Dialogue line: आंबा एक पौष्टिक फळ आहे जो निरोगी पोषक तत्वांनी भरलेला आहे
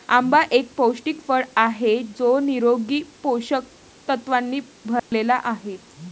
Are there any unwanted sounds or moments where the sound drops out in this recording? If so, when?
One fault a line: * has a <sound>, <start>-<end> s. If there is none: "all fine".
* has a dropout, 5.0-5.1 s